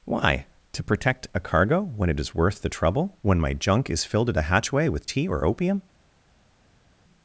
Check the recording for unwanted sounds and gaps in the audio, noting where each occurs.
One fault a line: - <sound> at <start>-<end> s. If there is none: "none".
none